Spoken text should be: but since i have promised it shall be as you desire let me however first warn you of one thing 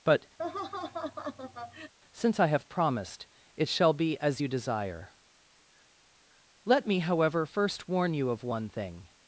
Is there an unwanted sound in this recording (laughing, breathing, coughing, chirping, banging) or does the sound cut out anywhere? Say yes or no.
yes